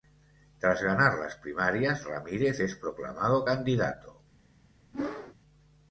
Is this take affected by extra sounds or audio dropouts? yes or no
yes